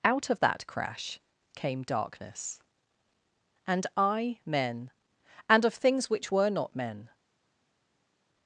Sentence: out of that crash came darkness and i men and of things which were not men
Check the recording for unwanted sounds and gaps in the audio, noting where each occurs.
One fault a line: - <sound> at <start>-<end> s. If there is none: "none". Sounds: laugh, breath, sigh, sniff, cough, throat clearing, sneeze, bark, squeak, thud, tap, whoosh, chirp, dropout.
none